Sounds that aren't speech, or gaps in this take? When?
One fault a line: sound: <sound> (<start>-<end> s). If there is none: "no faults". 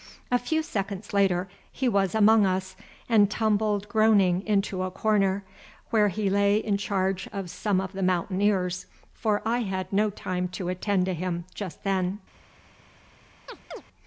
sound: chirp (13.5-13.8 s)